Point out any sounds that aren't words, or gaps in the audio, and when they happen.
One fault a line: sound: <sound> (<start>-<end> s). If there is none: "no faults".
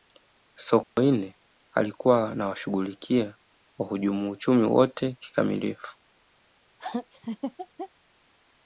sound: dropout (0.8-1.0 s)
sound: laugh (6.8-7.9 s)